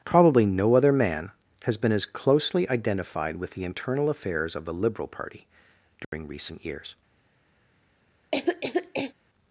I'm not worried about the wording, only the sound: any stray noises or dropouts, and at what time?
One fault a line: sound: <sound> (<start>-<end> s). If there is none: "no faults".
sound: dropout (6.0-6.1 s)
sound: cough (8.3-9.1 s)